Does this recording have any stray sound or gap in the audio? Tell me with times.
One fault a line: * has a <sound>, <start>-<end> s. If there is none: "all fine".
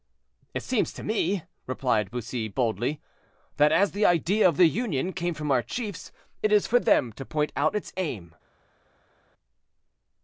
all fine